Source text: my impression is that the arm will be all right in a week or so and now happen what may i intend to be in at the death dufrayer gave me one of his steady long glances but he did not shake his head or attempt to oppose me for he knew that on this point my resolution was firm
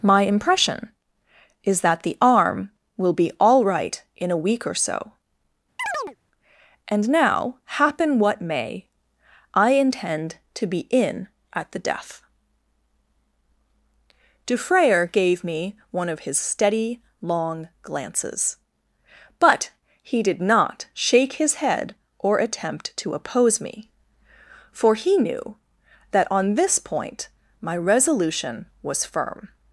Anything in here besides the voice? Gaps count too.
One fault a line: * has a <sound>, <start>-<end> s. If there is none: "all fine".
* has a chirp, 5.8-6.2 s